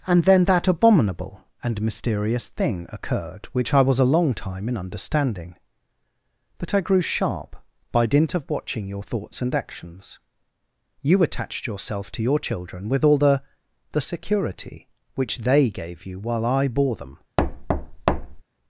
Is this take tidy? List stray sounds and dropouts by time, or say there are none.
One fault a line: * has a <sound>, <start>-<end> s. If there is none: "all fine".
* has a thud, 17.4-18.4 s